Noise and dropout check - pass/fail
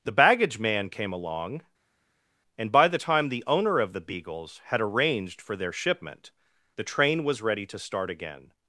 pass